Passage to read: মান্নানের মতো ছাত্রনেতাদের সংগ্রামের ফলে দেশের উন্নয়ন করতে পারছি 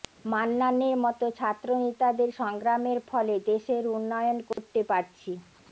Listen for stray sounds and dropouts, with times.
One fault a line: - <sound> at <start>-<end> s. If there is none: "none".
- dropout at 4.5-4.6 s